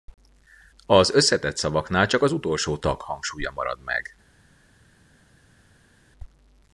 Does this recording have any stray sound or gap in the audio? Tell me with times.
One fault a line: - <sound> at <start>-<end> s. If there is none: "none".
none